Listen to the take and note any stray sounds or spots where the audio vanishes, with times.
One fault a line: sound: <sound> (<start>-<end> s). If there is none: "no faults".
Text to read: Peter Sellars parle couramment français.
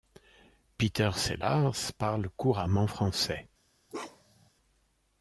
sound: bark (3.9-4.5 s)